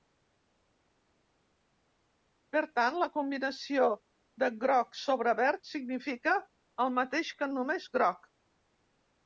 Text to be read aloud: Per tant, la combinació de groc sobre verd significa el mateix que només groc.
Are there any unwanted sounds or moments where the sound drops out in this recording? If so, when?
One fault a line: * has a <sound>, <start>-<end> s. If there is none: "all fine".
all fine